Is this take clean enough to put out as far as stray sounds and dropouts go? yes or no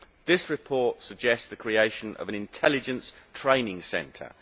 yes